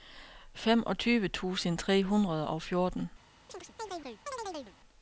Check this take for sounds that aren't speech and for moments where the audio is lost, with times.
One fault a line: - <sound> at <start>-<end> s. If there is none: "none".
- chirp at 3.5-4.8 s